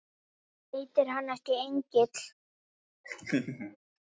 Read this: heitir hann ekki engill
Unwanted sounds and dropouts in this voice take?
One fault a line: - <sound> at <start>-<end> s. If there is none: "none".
- laugh at 3.0-3.8 s